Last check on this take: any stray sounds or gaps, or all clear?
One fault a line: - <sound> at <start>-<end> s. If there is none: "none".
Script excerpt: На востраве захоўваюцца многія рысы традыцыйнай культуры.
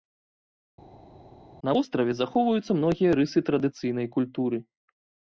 none